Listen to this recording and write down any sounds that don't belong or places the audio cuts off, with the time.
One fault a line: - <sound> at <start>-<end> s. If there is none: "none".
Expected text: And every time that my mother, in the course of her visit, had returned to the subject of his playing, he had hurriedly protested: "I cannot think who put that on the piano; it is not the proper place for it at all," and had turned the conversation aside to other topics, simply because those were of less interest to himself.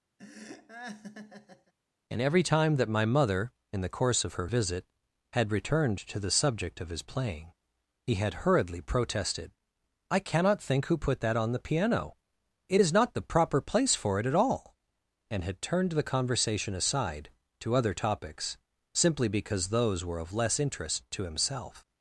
- laugh at 0.2-1.7 s